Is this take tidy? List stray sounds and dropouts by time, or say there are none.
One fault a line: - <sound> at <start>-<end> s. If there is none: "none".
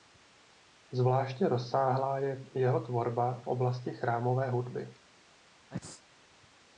- sneeze at 5.7-6.0 s